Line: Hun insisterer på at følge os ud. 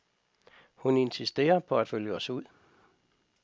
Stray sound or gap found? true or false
false